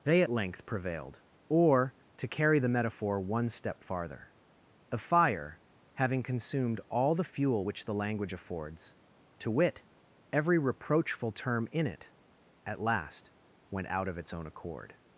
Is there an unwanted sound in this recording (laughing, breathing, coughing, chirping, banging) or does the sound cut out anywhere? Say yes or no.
no